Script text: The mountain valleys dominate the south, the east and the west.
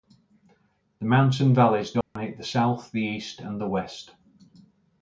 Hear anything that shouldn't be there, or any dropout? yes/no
yes